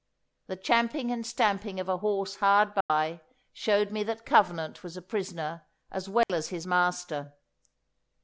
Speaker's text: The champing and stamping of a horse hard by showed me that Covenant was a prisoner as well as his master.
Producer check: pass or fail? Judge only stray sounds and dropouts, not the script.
fail